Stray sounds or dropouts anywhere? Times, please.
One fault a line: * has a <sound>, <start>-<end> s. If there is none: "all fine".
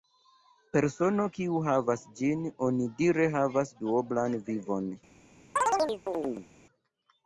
* has a chirp, 5.6-6.5 s